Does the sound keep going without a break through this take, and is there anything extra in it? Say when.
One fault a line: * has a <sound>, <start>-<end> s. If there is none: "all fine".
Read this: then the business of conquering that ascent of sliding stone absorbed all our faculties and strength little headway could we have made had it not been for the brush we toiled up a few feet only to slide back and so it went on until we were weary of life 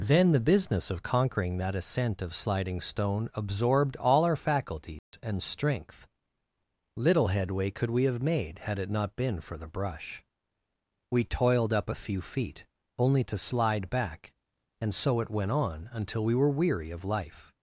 * has a dropout, 5.0-5.1 s